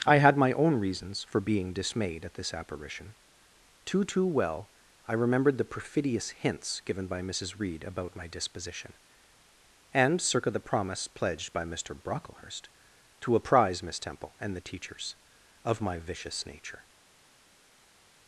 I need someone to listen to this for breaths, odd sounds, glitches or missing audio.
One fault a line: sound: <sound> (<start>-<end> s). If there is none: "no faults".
no faults